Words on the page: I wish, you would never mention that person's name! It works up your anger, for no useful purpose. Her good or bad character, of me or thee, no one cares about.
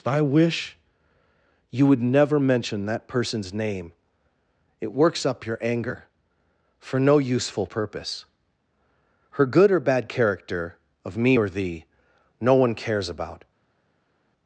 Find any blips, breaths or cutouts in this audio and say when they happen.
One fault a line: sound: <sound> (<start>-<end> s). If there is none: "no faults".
no faults